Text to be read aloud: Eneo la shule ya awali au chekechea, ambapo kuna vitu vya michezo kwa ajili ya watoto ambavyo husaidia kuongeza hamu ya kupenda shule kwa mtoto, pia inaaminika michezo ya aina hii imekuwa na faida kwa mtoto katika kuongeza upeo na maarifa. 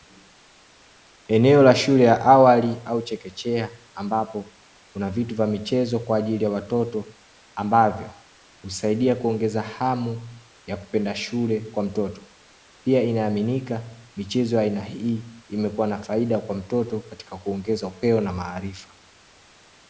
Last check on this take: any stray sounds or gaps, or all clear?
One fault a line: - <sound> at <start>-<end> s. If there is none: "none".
none